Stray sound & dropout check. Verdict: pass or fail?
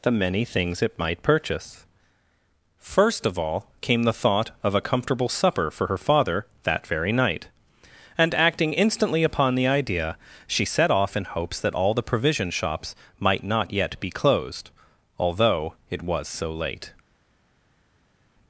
pass